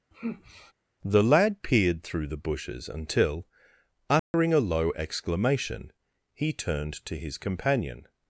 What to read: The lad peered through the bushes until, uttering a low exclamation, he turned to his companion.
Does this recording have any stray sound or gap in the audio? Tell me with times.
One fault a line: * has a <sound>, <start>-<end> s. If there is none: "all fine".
* has a sigh, 0.1-0.7 s
* has a dropout, 4.2-4.3 s